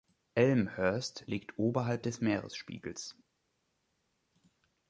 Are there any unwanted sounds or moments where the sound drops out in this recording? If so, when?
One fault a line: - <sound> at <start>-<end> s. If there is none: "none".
none